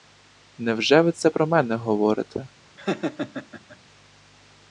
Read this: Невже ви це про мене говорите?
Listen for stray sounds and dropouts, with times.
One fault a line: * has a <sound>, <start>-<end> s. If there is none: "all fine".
* has a laugh, 2.8-3.8 s